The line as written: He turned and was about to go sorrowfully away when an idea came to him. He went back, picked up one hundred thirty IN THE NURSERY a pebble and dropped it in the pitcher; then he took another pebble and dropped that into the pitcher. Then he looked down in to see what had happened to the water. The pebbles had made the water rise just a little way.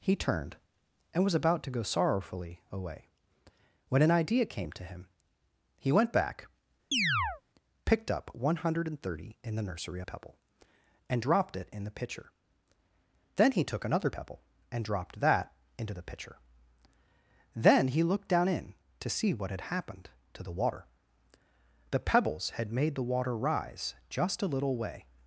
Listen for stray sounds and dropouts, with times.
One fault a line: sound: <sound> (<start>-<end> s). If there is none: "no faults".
sound: chirp (6.9-7.4 s)